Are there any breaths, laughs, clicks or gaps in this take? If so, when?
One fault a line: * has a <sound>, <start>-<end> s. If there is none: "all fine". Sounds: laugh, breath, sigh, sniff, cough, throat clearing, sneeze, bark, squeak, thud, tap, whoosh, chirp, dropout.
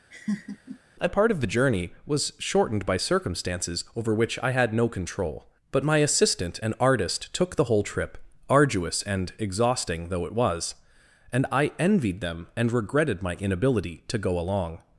* has a laugh, 0.1-0.8 s